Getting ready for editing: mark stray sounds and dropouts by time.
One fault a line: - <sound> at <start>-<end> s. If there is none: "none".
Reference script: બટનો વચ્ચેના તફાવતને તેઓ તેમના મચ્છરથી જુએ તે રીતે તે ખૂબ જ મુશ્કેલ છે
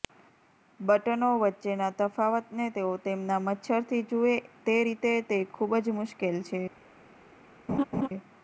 - laugh at 7.7-8.1 s